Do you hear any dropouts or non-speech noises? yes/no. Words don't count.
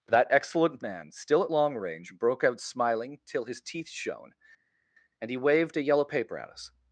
no